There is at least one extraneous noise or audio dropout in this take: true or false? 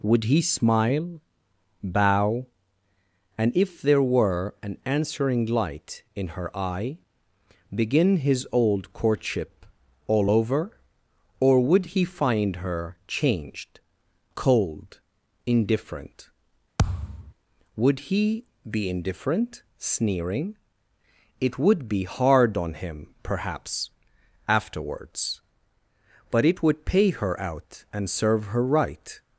true